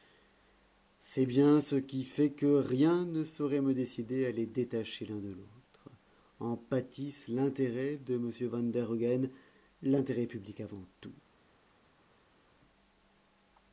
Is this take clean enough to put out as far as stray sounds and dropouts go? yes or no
yes